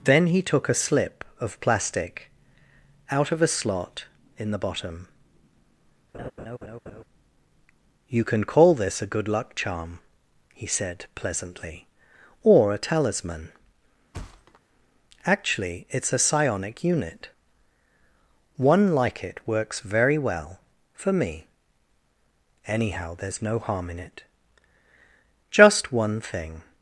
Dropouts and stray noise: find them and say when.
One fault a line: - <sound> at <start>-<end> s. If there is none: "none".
- laugh at 6.1-7.0 s
- thud at 14.1-14.6 s